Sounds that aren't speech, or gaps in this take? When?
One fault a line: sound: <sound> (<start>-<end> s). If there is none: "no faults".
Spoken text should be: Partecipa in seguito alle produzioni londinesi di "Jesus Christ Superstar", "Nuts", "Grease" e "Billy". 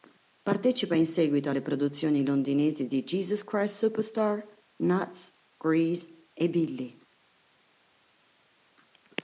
no faults